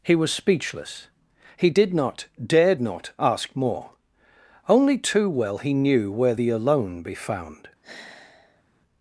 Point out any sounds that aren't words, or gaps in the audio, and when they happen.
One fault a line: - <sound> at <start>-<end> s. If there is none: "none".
- sigh at 7.8-8.6 s